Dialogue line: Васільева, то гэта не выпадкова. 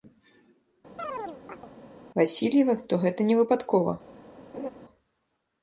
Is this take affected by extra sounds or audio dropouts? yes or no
yes